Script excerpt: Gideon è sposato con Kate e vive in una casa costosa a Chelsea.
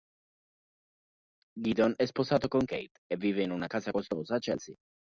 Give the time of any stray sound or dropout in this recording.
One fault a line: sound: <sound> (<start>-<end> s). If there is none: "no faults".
no faults